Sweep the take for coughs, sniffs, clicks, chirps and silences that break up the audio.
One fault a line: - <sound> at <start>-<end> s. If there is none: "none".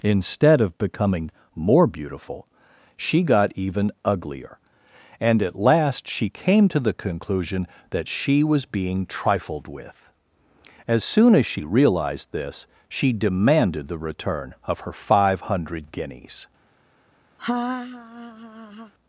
- laugh at 17.4-18.9 s